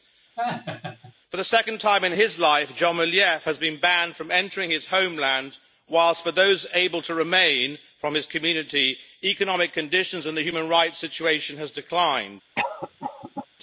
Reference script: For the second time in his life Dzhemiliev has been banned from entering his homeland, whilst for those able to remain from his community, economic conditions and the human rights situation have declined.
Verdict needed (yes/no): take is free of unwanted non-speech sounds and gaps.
no